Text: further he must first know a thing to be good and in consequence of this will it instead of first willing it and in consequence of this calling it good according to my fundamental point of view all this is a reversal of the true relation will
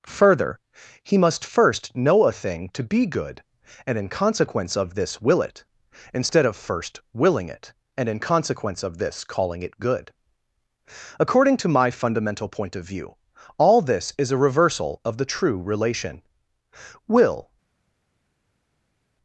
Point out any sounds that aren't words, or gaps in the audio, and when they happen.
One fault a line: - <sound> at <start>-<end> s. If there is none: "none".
none